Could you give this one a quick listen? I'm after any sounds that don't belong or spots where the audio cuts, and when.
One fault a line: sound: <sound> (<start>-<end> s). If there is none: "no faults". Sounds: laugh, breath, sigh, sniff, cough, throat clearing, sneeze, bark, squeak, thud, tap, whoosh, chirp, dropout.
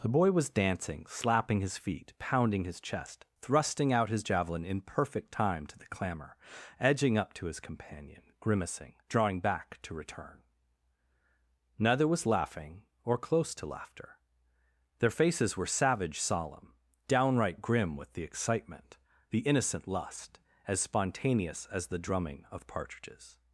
no faults